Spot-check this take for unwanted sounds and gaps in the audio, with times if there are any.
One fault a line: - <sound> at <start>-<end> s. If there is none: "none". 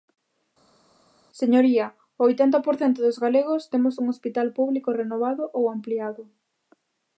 none